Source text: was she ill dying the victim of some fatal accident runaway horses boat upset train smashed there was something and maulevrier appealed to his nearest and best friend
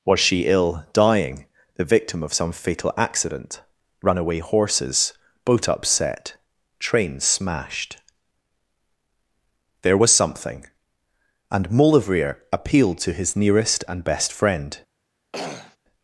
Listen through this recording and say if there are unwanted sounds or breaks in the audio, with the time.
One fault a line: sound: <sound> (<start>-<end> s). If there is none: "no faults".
sound: throat clearing (15.3-15.8 s)